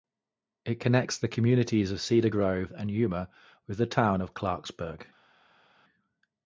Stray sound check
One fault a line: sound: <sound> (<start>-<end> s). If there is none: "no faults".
no faults